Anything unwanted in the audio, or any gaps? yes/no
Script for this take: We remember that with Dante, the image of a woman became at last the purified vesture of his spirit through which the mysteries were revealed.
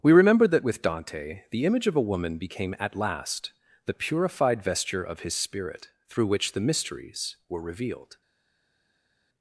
no